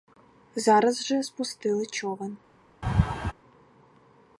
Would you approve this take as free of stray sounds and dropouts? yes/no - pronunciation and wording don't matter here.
no